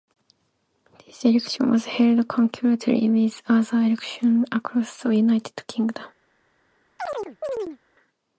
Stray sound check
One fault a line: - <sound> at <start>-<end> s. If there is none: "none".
- chirp at 7.0-7.8 s